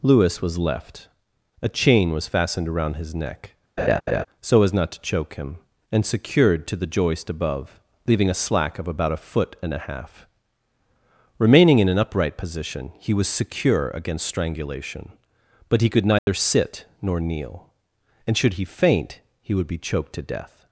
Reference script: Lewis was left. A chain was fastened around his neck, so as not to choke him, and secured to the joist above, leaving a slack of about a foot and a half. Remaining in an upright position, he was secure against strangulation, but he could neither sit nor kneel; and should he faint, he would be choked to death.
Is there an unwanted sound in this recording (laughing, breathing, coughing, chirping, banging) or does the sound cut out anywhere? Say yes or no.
yes